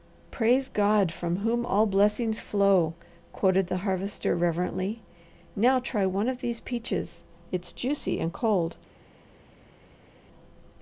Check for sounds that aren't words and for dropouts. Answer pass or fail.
pass